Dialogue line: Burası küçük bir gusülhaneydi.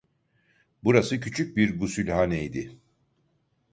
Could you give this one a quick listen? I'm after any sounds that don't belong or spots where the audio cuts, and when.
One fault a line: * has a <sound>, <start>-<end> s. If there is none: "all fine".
all fine